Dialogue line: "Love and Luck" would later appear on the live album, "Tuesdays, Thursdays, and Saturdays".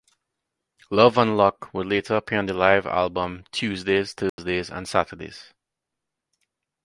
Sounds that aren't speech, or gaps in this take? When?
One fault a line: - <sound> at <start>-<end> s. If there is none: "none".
- dropout at 4.3-4.4 s